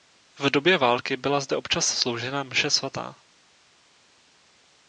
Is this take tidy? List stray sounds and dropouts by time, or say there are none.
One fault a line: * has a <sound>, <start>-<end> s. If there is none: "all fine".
all fine